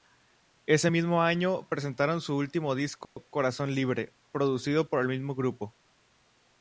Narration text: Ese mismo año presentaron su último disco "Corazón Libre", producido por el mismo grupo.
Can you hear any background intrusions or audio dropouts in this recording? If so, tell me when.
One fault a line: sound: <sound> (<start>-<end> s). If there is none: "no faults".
sound: dropout (3.0-3.2 s)